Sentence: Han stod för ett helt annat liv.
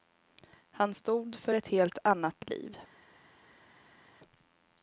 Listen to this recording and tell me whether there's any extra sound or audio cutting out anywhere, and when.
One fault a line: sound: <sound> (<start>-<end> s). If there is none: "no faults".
no faults